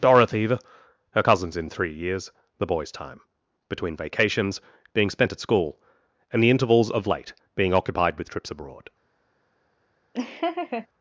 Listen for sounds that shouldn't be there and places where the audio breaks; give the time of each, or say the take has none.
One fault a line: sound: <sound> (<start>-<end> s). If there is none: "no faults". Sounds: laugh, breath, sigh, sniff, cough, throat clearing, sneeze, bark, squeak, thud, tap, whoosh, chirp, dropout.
sound: laugh (10.1-10.9 s)